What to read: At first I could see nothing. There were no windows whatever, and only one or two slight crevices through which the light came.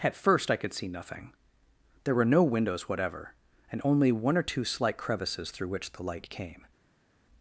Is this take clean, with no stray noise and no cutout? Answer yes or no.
yes